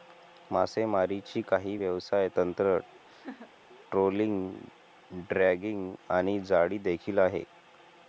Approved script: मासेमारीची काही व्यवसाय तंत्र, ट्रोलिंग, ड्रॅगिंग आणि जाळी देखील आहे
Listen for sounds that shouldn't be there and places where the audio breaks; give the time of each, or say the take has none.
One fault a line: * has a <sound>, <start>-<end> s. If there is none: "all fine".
* has a laugh, 3.1-3.5 s